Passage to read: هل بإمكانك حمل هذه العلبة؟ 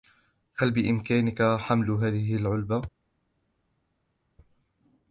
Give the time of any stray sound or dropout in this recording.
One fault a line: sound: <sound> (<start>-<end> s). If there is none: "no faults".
no faults